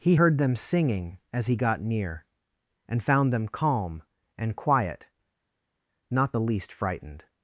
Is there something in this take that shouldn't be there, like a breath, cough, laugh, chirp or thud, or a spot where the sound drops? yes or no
no